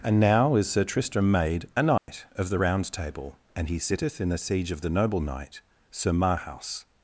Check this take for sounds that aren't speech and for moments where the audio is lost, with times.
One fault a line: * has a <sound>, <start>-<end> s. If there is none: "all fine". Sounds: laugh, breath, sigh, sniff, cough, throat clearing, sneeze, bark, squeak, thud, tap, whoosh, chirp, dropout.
* has a dropout, 2.0-2.1 s